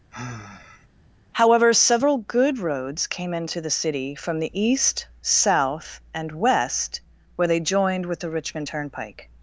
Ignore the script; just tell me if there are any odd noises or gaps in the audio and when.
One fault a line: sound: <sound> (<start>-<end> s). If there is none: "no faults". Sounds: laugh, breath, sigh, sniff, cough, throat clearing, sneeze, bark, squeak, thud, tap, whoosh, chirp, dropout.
sound: sigh (0.1-0.9 s)